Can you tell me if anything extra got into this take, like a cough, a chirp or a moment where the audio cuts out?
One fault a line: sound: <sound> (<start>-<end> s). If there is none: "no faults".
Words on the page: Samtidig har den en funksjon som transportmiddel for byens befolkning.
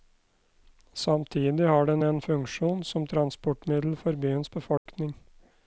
sound: dropout (4.8-4.9 s)